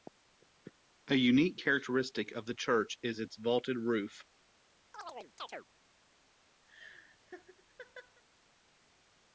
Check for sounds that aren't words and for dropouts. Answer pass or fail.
fail